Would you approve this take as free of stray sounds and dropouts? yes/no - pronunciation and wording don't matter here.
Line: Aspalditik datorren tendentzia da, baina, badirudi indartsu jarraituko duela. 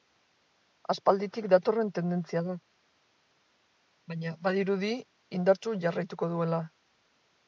yes